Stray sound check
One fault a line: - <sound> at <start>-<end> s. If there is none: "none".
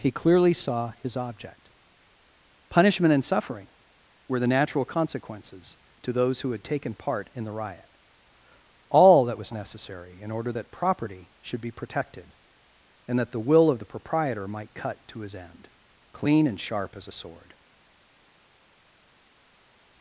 none